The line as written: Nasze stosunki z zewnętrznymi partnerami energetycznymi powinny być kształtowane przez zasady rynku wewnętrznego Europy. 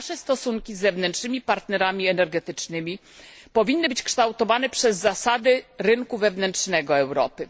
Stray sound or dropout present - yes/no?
no